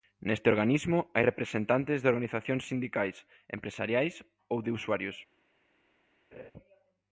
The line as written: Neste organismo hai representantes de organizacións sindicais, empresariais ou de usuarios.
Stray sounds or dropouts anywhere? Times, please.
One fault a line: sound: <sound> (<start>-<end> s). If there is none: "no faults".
sound: laugh (6.3-6.5 s)